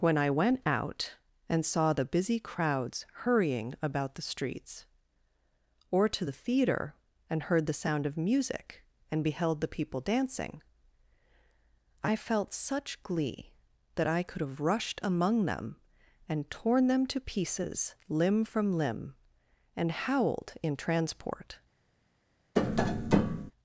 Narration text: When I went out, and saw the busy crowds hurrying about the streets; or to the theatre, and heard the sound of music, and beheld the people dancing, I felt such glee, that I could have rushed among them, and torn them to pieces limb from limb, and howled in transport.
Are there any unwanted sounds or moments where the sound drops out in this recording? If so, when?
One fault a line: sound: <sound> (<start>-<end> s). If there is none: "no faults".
sound: tap (22.6-23.5 s)